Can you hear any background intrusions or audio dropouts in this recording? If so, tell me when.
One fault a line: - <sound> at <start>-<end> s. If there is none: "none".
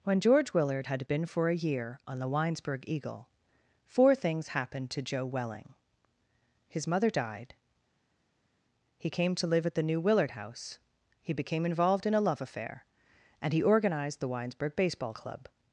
none